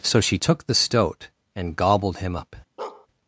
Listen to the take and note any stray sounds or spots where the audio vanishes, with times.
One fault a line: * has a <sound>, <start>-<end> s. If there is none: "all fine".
* has a bark, 2.8-3.1 s